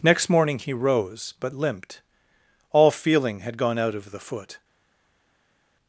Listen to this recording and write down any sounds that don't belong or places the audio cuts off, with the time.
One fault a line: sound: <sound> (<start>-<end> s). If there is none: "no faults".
no faults